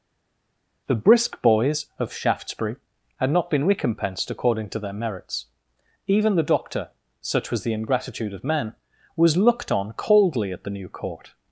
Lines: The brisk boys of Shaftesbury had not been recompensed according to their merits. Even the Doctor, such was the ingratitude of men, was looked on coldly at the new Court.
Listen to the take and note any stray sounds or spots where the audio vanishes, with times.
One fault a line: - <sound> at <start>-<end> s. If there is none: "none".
none